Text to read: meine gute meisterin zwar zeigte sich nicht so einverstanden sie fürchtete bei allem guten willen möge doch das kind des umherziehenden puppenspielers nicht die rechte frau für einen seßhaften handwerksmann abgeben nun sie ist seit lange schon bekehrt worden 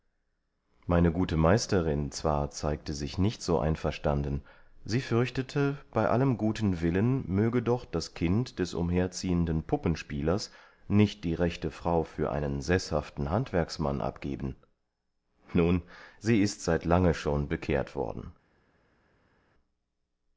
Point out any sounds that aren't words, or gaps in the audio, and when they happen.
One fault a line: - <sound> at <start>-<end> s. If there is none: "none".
none